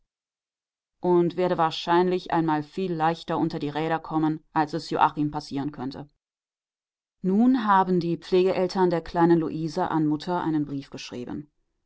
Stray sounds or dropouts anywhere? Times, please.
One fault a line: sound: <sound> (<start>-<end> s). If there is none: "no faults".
no faults